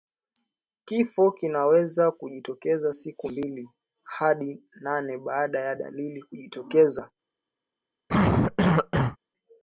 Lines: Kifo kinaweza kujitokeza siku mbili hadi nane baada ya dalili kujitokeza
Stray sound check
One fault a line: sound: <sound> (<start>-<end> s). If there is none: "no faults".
sound: cough (8.1-9.2 s)